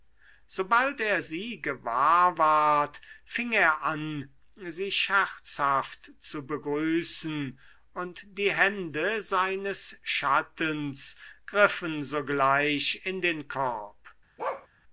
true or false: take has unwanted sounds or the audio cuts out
true